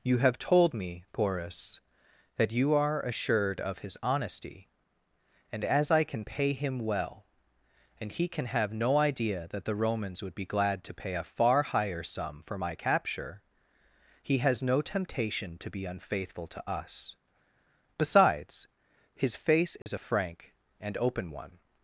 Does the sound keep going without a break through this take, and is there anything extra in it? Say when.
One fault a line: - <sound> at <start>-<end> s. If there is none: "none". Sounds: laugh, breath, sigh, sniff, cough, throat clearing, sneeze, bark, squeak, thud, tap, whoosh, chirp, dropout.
- dropout at 19.8-19.9 s